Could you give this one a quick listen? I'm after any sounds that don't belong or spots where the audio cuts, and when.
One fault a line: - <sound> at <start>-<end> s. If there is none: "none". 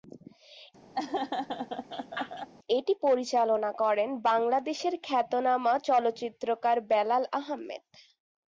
- laugh at 0.9-2.5 s